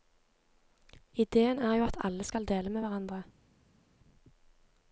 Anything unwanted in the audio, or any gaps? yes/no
no